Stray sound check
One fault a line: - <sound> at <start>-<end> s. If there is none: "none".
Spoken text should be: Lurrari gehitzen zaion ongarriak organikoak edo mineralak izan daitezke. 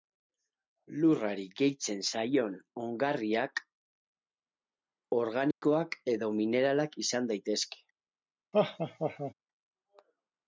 - dropout at 5.5-5.6 s
- laugh at 8.5-9.3 s